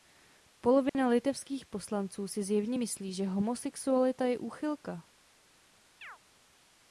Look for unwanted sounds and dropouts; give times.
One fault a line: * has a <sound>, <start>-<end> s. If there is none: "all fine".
* has a dropout, 0.9-0.9 s
* has a chirp, 6.0-6.2 s